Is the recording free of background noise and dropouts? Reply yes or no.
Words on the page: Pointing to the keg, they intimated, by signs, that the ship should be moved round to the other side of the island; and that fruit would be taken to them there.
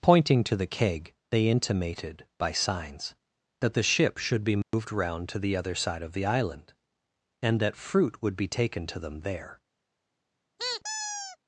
no